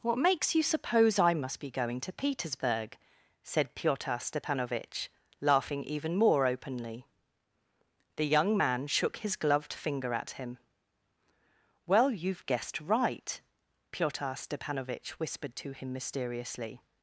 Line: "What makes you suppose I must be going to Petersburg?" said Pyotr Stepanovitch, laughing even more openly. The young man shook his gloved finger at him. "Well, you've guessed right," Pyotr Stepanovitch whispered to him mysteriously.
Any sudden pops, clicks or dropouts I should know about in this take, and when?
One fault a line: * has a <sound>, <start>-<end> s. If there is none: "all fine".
all fine